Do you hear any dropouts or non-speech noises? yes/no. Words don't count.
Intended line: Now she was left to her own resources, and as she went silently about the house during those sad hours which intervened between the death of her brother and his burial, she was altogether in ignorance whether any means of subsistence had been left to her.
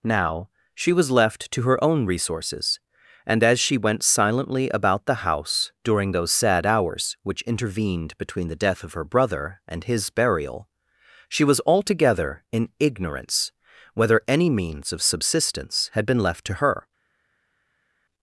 no